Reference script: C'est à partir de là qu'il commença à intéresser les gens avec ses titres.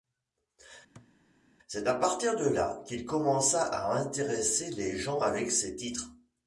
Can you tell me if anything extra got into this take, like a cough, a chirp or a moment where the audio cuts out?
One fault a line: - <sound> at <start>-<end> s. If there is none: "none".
- thud at 1.0-1.1 s